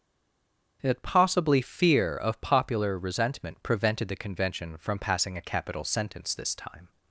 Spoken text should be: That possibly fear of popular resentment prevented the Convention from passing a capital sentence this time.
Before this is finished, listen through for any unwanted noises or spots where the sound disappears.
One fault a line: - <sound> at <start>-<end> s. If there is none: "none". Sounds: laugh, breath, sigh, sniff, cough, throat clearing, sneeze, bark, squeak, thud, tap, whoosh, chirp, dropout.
none